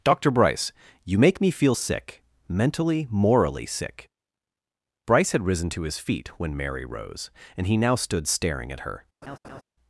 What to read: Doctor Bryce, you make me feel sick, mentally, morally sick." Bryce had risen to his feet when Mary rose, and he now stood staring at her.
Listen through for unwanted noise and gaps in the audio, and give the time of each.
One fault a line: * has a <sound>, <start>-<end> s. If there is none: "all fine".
* has a laugh, 9.2-9.6 s